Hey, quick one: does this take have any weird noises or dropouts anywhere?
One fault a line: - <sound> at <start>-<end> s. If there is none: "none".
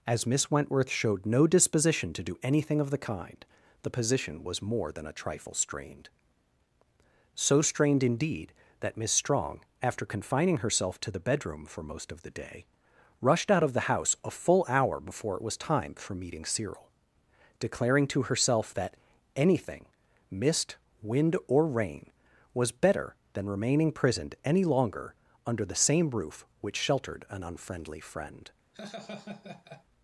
- laugh at 28.7-29.8 s